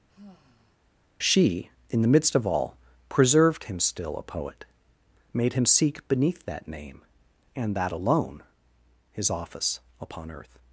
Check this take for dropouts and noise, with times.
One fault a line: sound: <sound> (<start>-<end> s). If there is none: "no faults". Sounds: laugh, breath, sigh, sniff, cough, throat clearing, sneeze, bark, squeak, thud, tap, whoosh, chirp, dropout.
sound: sigh (0.1-0.8 s)